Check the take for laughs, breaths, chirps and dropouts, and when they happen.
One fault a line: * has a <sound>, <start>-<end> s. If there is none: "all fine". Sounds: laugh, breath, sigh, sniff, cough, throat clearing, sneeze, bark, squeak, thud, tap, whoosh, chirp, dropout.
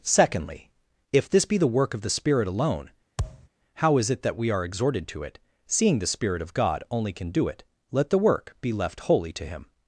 * has a thud, 3.2-3.5 s